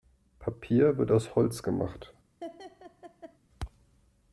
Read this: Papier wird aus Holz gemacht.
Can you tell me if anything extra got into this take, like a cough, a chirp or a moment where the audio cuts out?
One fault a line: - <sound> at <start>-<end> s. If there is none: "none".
- laugh at 2.4-3.4 s